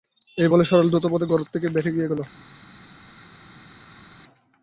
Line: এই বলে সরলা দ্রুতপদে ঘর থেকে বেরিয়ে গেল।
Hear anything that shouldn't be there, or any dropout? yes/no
no